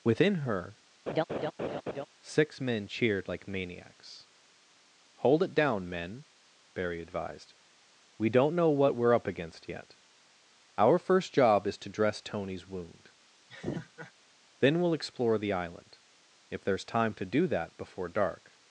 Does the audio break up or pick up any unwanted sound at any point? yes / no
yes